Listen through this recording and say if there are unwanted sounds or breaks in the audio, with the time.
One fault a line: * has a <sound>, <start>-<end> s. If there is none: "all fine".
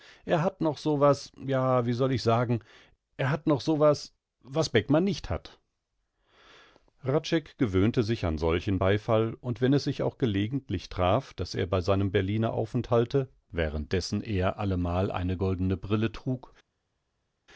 all fine